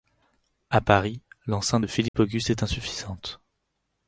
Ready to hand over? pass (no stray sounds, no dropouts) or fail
fail